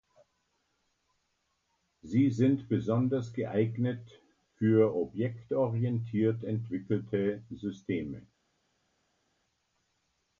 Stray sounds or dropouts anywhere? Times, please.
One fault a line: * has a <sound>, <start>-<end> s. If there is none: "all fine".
all fine